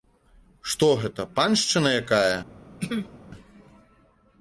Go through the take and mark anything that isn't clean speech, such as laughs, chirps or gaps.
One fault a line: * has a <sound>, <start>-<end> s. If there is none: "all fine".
* has a throat clearing, 2.8-3.2 s